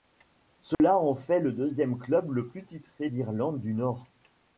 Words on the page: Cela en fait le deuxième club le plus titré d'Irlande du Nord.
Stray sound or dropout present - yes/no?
yes